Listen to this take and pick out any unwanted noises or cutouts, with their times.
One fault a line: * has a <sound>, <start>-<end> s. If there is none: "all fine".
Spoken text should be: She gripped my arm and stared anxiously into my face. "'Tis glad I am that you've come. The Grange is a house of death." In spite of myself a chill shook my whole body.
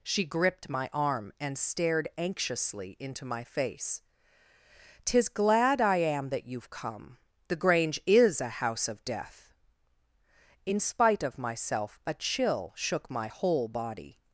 all fine